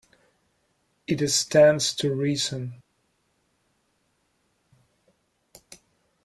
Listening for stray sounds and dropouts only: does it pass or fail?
pass